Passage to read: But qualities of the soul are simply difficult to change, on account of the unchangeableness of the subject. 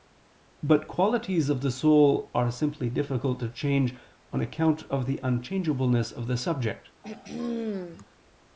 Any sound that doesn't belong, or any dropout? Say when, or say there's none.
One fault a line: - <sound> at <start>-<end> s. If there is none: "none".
- throat clearing at 7.0-8.0 s